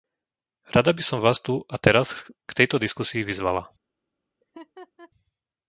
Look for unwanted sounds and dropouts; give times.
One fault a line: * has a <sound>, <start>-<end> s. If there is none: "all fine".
* has a laugh, 4.4-5.1 s